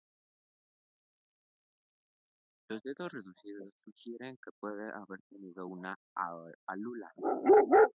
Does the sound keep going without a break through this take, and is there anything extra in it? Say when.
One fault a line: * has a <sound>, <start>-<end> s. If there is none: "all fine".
all fine